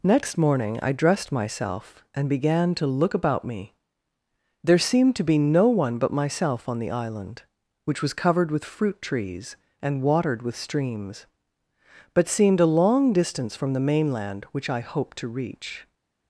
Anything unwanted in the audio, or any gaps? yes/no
no